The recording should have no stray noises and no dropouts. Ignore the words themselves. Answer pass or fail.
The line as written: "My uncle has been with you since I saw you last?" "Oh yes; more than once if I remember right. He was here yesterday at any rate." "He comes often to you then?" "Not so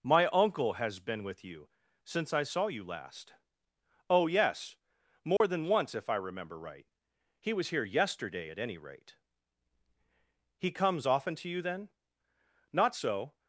fail